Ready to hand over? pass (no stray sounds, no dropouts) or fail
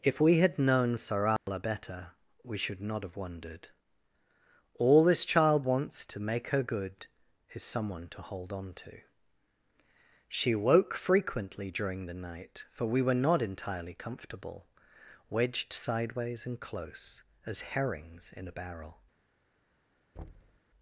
fail